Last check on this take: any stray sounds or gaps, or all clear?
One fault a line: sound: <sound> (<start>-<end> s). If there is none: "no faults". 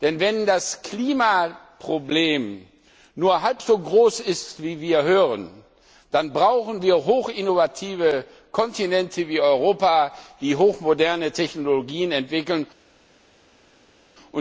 no faults